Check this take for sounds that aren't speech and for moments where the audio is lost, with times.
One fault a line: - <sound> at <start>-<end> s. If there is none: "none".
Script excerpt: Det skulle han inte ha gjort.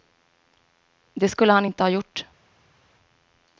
none